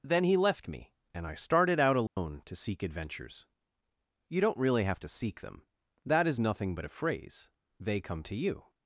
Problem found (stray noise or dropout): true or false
true